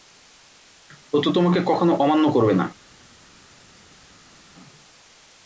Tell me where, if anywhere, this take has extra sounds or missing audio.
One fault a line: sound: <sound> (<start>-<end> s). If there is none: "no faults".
no faults